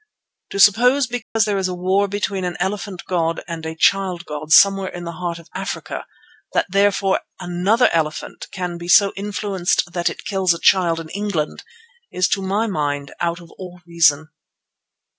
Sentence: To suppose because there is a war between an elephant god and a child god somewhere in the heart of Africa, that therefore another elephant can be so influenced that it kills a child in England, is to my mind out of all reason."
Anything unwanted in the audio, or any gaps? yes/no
yes